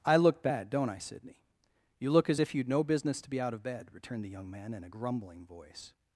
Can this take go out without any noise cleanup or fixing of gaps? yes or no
yes